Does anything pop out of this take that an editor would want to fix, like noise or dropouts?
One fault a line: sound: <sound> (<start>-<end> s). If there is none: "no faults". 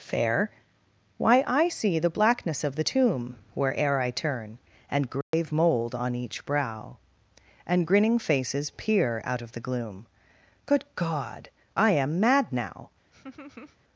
sound: dropout (5.2-5.3 s)
sound: laugh (13.1-13.8 s)